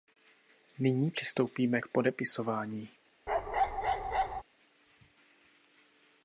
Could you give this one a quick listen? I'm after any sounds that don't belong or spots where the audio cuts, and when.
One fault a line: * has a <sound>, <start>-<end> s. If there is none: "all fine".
* has a bark, 3.3-4.4 s